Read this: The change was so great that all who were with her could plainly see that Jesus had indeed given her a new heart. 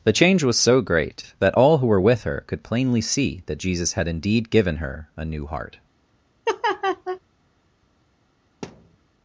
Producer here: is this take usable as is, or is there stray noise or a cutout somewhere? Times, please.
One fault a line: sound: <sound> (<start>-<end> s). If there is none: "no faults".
sound: laugh (6.4-7.2 s)
sound: thud (8.6-9.0 s)